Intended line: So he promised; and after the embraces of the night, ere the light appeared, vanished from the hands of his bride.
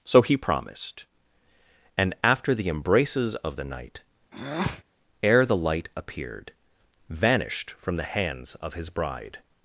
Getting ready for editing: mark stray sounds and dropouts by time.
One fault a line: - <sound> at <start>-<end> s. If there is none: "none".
- breath at 4.3-4.8 s